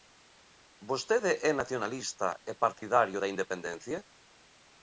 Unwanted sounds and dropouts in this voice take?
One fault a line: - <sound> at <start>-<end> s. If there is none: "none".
- dropout at 2.8-2.8 s